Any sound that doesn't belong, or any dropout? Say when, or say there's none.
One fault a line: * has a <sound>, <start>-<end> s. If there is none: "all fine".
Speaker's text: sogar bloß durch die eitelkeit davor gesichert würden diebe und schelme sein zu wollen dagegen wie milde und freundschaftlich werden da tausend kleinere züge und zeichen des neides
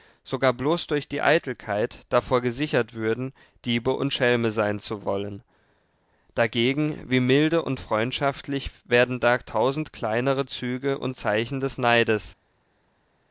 all fine